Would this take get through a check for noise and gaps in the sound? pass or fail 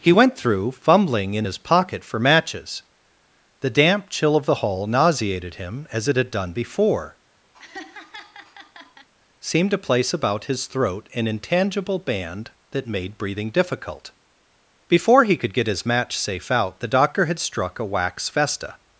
fail